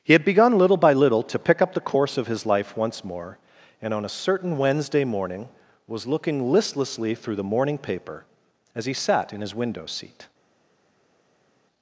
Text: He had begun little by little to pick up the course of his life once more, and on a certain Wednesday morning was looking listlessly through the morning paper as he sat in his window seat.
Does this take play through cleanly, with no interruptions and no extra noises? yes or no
yes